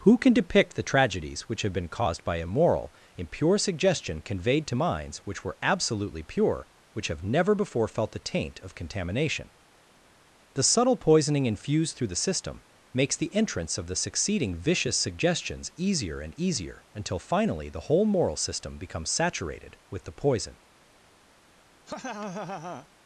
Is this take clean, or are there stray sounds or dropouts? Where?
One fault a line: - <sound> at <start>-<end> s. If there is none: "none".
- laugh at 21.9-22.9 s